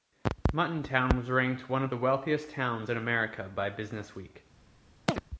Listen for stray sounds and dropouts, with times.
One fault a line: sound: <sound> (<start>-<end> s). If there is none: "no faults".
sound: chirp (5.1-5.2 s)